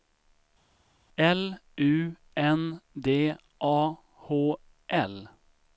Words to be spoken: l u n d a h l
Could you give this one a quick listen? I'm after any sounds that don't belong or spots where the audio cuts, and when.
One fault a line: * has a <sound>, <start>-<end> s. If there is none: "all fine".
all fine